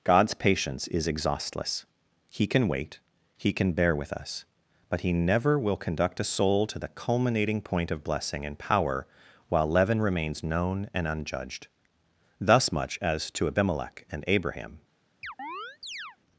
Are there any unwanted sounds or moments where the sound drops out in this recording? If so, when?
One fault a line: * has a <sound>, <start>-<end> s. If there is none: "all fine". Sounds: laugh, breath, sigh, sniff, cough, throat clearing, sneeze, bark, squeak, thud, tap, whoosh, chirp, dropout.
* has a chirp, 15.2-16.2 s